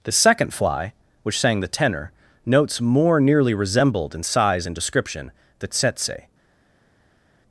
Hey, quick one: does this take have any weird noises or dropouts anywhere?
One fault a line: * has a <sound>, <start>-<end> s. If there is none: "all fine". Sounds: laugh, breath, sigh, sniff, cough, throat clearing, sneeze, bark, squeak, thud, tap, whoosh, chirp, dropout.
all fine